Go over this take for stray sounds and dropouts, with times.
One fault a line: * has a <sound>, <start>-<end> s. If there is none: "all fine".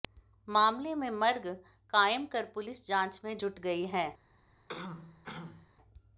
* has a throat clearing, 4.7-5.7 s